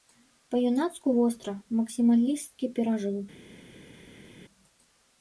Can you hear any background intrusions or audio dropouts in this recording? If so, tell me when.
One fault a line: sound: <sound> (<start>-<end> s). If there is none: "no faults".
no faults